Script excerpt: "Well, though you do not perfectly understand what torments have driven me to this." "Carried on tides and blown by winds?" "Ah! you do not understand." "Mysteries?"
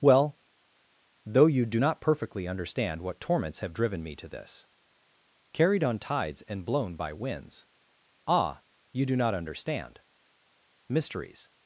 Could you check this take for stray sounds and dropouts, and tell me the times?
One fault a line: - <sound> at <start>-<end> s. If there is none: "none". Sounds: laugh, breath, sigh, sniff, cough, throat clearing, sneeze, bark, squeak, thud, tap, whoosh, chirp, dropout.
none